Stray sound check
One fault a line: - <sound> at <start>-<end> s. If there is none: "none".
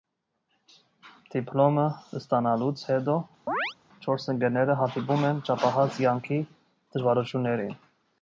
- chirp at 3.5-3.7 s